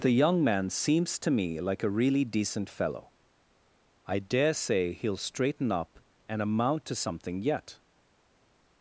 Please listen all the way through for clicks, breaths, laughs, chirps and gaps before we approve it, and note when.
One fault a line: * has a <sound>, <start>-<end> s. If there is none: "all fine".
all fine